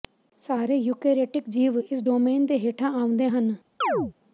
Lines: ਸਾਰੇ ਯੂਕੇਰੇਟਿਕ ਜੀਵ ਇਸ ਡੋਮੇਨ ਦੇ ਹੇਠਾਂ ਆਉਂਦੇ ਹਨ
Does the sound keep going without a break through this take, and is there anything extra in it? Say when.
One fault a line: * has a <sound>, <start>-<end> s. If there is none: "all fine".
* has a chirp, 3.8-4.1 s